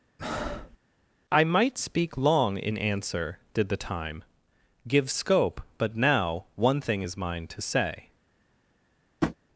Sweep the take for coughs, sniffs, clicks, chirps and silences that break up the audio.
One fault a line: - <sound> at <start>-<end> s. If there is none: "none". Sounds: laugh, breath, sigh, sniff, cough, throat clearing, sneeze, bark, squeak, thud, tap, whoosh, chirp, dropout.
- breath at 0.2-0.8 s
- tap at 9.2-9.4 s